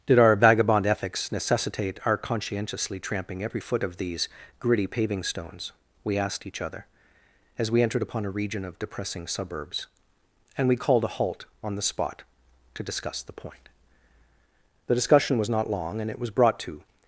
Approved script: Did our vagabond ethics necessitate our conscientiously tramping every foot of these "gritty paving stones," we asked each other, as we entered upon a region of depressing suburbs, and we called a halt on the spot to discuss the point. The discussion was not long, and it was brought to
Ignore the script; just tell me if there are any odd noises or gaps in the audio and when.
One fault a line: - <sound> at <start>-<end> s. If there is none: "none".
none